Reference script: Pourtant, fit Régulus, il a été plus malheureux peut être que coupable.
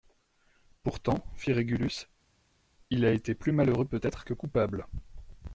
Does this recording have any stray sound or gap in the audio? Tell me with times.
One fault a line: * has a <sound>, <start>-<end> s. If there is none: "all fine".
all fine